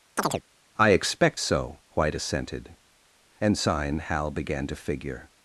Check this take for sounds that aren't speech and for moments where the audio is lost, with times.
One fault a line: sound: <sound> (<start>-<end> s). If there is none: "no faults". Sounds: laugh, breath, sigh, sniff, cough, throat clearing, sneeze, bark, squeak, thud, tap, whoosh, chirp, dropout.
sound: chirp (0.2-0.4 s)